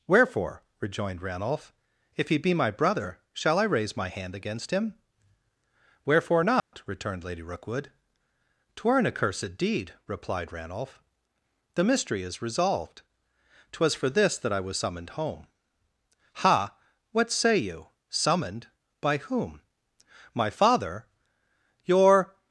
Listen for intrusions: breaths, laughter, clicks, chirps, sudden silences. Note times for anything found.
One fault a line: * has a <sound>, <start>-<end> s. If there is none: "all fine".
* has a dropout, 6.6-6.7 s